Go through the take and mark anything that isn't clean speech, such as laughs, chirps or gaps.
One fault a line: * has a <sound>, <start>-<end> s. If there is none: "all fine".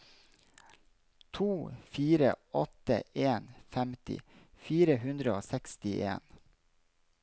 all fine